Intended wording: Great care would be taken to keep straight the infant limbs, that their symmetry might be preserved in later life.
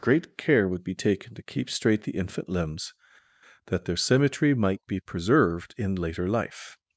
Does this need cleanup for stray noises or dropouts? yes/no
no